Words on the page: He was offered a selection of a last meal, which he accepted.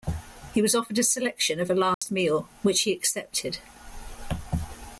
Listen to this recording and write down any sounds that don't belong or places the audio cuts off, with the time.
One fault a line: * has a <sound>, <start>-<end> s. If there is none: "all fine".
* has a dropout, 1.9-2.0 s